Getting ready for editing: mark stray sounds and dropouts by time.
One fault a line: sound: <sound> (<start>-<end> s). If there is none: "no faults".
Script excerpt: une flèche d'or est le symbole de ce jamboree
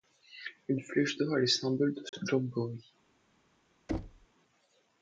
sound: dropout (2.1-2.1 s)
sound: thud (3.9-4.3 s)